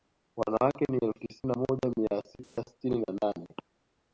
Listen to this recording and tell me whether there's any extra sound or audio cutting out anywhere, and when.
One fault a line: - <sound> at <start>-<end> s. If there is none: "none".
- dropout at 2.4-2.6 s